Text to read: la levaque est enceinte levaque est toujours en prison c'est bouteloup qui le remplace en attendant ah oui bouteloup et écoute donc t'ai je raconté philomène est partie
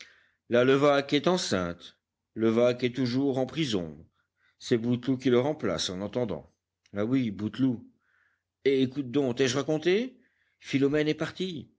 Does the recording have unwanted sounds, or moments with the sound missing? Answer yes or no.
no